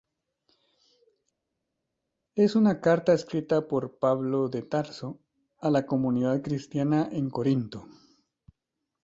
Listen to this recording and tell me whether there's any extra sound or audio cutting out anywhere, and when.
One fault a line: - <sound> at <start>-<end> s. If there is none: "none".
none